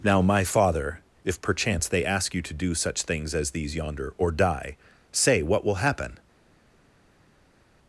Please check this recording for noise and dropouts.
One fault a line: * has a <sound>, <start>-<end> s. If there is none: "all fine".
all fine